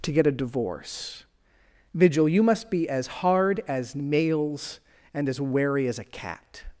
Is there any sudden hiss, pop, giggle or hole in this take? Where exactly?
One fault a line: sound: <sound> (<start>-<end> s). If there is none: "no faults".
no faults